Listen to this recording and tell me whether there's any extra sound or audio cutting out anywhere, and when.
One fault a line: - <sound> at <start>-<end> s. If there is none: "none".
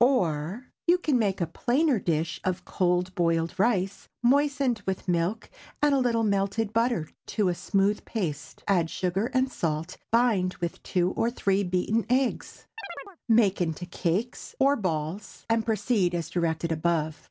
- chirp at 12.8-13.2 s